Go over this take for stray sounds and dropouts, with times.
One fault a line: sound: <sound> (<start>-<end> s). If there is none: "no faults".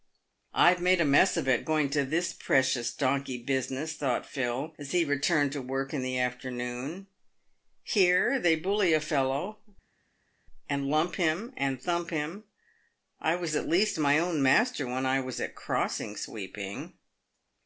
no faults